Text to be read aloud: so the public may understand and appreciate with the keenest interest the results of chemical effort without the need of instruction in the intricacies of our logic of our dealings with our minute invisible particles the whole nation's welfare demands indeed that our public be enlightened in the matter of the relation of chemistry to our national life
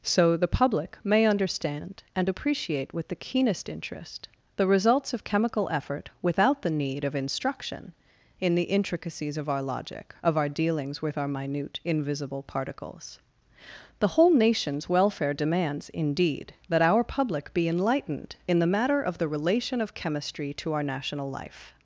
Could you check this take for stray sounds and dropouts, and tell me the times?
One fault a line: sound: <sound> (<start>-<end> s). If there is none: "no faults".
no faults